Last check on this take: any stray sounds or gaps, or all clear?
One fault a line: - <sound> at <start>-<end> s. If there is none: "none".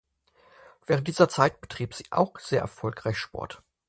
none